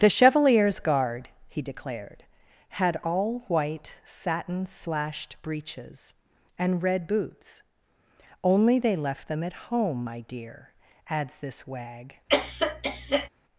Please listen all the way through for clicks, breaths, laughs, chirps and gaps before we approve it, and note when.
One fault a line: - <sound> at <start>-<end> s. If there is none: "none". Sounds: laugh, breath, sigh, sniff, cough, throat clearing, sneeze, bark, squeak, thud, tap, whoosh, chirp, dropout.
- cough at 12.3-13.3 s